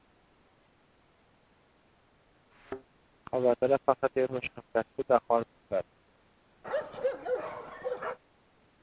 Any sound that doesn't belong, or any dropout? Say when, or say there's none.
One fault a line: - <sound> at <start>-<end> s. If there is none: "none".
- thud at 2.5-2.8 s
- bark at 6.6-8.2 s